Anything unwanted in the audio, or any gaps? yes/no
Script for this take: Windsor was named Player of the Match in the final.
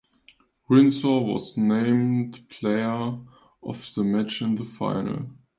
no